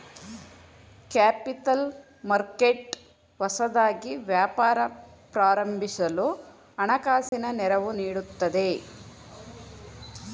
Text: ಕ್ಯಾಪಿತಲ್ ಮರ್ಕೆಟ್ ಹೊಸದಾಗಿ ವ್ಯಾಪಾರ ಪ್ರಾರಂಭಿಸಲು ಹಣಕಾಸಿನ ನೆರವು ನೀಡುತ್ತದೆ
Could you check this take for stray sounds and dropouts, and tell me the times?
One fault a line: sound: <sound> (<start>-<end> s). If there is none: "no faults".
sound: dropout (7.3-7.3 s)